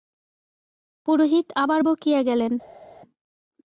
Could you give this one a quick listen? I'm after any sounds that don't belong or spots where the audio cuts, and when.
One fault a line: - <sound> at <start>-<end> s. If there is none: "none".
none